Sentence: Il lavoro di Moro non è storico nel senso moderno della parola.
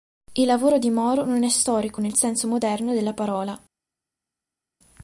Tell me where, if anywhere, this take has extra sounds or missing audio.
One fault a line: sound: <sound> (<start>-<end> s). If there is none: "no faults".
no faults